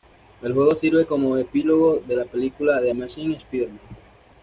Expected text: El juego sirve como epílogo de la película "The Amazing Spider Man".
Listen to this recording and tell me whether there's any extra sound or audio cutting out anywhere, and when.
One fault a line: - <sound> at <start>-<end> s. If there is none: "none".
none